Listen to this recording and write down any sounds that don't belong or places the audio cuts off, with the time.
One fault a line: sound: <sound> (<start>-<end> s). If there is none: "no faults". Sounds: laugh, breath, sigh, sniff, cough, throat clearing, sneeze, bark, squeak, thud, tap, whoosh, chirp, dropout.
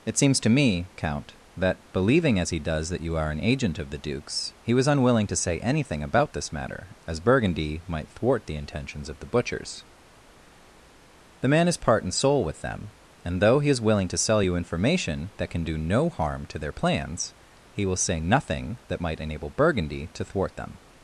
no faults